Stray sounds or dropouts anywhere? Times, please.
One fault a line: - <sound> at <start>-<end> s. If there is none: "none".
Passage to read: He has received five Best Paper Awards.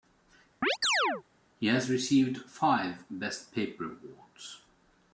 - chirp at 0.6-1.2 s